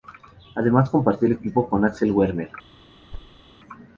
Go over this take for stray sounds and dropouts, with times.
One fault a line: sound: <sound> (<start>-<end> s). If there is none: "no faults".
sound: thud (3.1-3.4 s)